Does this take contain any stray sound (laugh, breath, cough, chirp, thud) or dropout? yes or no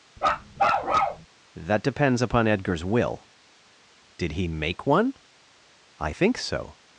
yes